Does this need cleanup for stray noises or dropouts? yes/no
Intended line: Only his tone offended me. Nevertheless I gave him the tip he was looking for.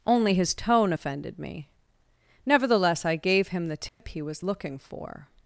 yes